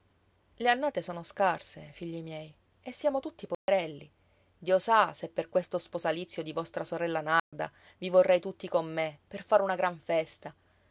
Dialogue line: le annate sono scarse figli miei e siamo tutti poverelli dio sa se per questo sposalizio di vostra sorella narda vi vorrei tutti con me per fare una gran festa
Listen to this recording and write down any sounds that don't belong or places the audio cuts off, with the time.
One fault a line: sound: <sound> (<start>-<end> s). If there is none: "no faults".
sound: dropout (3.5-3.7 s)
sound: dropout (7.4-7.5 s)